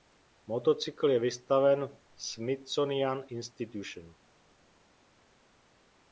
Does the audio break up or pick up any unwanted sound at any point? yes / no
no